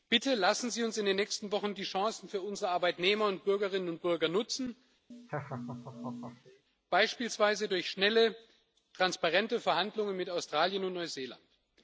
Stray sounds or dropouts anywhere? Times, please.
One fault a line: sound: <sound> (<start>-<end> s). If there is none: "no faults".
sound: laugh (5.1-6.6 s)